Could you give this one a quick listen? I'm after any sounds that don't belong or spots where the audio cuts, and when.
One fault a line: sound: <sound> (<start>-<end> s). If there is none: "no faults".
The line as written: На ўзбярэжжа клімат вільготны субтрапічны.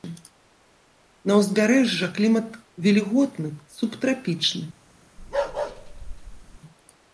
sound: bark (5.2-6.6 s)